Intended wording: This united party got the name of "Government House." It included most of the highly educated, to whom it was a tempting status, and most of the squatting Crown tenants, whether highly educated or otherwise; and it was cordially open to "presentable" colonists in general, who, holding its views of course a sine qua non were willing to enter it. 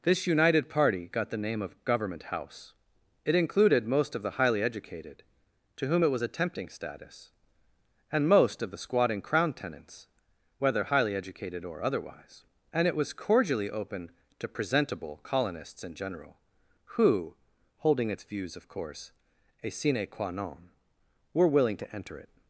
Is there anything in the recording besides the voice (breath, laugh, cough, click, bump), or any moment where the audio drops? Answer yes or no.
no